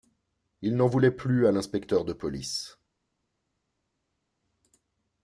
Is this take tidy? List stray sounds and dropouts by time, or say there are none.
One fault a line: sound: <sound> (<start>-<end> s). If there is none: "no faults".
no faults